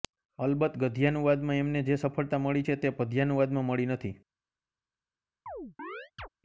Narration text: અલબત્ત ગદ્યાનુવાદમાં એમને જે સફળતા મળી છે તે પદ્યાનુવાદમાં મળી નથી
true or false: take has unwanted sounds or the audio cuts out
true